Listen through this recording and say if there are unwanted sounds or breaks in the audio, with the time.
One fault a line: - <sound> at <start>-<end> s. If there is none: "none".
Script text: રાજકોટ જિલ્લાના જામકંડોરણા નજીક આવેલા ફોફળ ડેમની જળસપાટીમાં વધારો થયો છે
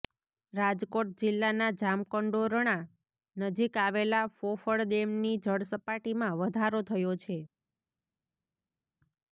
none